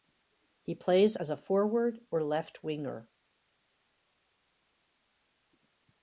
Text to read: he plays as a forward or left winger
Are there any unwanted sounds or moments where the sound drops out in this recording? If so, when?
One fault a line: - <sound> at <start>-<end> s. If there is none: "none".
none